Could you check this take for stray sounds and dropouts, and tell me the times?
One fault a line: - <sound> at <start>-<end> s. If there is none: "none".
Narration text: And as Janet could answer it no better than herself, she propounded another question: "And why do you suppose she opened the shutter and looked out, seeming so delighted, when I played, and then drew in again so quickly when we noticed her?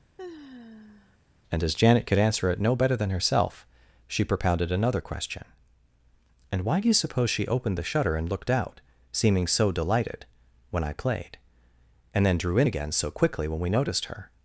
- sigh at 0.2-1.2 s